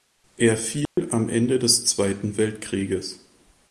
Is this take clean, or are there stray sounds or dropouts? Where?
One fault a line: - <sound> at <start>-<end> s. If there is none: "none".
- dropout at 0.9-1.0 s